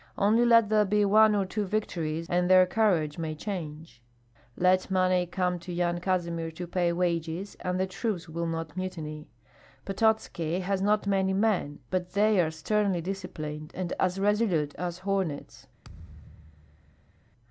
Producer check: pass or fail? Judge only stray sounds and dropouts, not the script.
fail